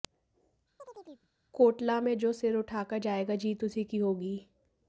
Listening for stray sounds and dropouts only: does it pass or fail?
fail